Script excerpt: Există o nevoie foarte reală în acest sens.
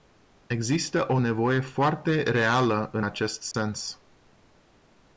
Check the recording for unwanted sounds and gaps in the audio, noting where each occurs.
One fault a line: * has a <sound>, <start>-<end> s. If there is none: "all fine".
* has a dropout, 3.5-3.5 s